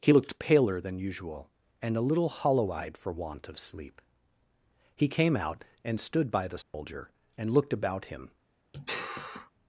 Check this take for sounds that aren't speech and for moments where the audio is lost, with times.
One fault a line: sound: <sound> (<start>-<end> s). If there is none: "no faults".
sound: dropout (6.6-6.7 s)
sound: sigh (8.7-9.5 s)